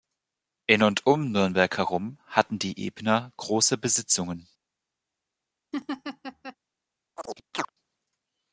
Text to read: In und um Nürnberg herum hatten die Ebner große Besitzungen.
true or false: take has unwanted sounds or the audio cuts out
true